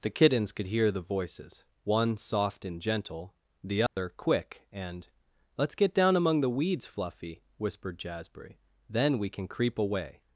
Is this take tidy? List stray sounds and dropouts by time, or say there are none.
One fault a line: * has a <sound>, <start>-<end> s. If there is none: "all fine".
* has a dropout, 3.9-4.0 s